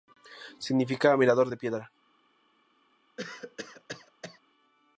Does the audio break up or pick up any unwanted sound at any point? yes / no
yes